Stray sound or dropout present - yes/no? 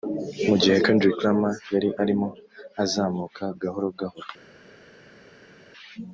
no